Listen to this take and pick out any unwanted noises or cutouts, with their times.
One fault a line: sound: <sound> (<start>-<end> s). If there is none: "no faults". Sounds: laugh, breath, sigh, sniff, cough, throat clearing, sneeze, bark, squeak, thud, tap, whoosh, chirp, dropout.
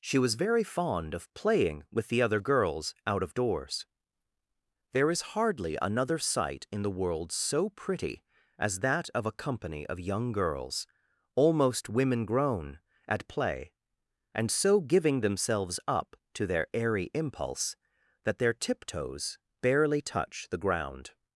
no faults